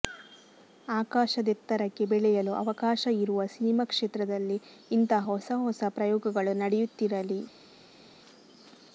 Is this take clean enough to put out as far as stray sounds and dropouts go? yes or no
yes